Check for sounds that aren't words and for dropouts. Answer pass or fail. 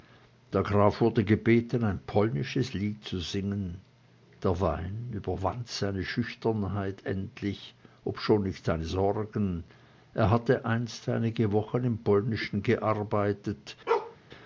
fail